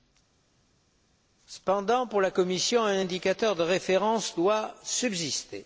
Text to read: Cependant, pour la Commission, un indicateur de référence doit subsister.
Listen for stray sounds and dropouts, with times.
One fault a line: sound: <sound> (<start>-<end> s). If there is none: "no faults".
no faults